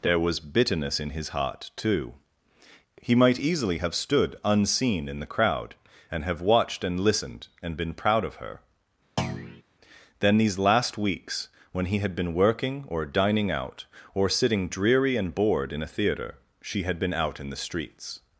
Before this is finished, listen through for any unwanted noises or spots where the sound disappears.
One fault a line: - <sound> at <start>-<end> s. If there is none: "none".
- thud at 9.2-9.6 s